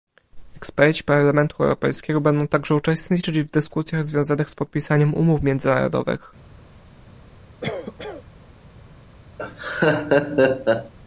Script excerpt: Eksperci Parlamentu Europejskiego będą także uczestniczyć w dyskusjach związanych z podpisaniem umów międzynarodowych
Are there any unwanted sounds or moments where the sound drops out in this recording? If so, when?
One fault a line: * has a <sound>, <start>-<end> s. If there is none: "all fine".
* has a cough, 7.6-8.2 s
* has a laugh, 9.4-10.9 s